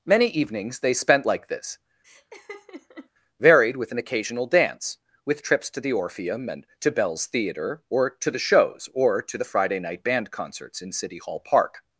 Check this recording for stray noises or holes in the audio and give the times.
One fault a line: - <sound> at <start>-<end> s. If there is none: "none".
- laugh at 2.0-3.1 s